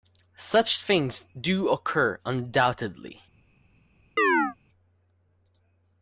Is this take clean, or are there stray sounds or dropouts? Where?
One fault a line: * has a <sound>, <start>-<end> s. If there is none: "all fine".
* has a chirp, 4.2-4.6 s